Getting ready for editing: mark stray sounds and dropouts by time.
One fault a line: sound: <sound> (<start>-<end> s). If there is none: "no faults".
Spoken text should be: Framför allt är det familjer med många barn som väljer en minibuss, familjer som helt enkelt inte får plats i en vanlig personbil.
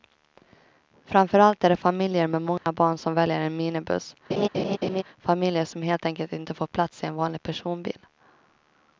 sound: dropout (2.6-2.7 s)
sound: laugh (4.3-5.0 s)